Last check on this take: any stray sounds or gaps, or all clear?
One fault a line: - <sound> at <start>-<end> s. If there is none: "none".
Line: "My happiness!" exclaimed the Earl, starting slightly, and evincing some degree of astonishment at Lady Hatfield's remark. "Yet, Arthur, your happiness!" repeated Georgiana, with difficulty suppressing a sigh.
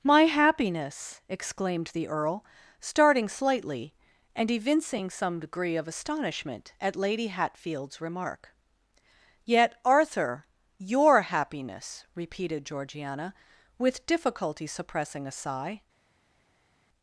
none